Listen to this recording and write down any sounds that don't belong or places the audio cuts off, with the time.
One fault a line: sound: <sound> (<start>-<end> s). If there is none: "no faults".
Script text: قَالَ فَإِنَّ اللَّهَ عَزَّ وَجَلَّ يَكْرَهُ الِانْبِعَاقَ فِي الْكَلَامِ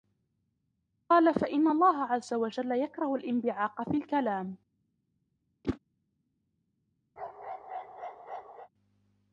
sound: whoosh (5.6-5.8 s)
sound: bark (7.2-8.7 s)